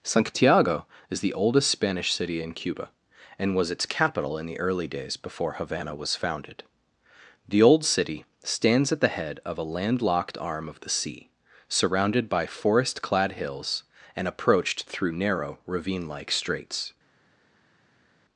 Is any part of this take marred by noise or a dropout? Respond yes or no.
no